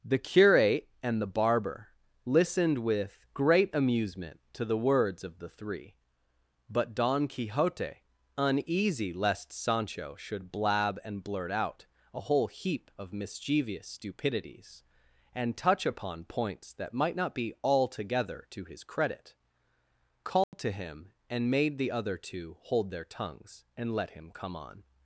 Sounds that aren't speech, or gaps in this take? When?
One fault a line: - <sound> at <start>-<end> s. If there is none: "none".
- dropout at 20.4-20.5 s